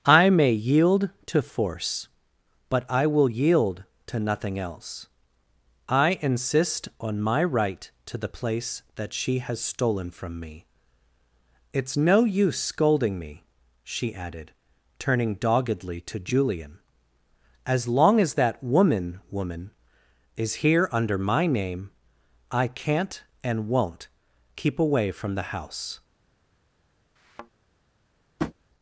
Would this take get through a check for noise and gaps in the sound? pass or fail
fail